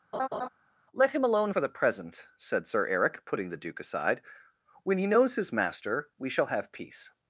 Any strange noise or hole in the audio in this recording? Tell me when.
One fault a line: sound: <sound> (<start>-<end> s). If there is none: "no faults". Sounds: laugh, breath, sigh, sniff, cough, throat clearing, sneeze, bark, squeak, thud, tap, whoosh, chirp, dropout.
sound: laugh (0.1-0.5 s)